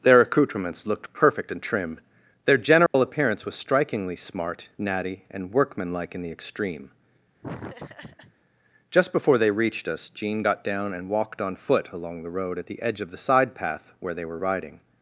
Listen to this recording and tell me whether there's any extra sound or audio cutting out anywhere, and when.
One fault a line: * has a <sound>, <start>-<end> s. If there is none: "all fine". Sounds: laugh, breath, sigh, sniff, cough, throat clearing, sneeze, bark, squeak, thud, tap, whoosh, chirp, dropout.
* has a dropout, 2.9-2.9 s
* has a laugh, 7.4-8.3 s